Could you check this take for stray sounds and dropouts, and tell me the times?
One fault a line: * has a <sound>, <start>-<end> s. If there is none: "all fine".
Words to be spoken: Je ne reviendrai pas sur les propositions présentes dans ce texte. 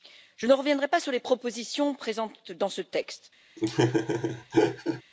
* has a laugh, 3.6-5.0 s